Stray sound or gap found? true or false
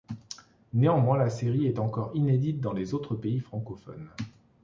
false